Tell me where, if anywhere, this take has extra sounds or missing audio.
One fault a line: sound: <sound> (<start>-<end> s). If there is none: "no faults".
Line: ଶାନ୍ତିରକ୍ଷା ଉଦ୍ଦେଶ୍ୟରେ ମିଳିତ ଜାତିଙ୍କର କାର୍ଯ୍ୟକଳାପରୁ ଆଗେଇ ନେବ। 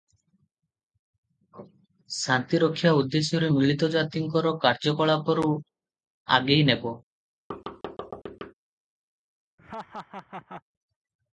sound: thud (7.5-8.5 s)
sound: laugh (9.6-10.6 s)